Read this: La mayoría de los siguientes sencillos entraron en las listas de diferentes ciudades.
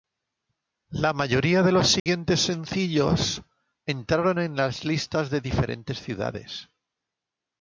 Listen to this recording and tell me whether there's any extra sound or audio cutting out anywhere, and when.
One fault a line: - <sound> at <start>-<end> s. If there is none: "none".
- dropout at 2.0-2.1 s